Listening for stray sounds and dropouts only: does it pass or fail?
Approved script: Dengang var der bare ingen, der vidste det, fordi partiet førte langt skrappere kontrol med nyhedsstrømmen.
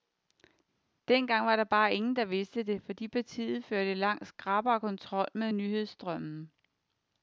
pass